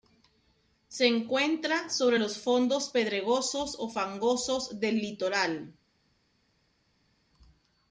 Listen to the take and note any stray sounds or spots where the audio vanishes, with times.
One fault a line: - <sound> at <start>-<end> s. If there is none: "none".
none